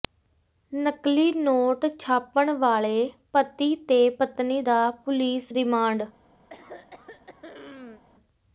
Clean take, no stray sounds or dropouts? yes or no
no